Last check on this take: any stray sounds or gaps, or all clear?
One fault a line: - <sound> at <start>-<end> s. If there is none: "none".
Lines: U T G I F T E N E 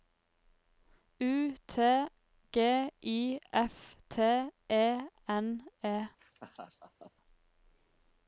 - laugh at 6.2-7.1 s